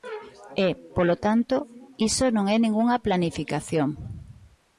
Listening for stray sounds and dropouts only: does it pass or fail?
pass